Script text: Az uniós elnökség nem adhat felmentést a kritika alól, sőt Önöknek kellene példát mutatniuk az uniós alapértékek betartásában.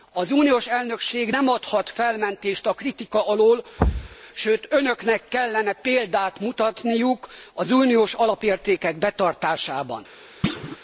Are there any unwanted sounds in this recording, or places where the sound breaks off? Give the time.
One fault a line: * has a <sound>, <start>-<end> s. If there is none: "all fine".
* has a thud, 3.8-4.2 s
* has a thud, 10.4-10.8 s